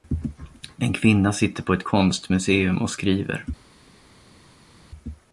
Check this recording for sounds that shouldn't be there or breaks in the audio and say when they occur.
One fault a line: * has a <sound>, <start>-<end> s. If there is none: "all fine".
all fine